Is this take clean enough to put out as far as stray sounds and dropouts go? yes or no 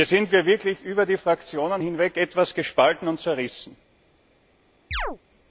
no